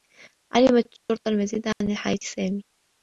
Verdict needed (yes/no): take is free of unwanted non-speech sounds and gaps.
no